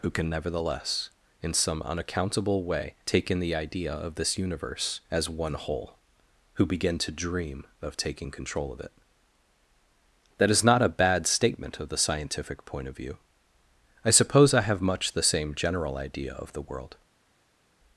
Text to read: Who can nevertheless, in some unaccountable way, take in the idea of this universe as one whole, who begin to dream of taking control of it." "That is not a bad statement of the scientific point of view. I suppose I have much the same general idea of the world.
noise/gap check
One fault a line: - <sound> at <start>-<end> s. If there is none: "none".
none